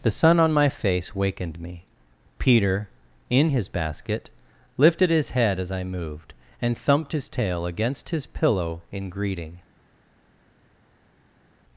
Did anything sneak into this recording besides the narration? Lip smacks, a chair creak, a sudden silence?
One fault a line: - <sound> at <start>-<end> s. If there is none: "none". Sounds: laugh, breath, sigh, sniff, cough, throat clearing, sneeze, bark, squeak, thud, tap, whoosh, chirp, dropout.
none